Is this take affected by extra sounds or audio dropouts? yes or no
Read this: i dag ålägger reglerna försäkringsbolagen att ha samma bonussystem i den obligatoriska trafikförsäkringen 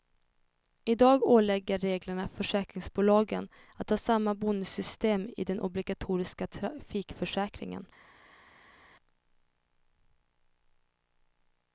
no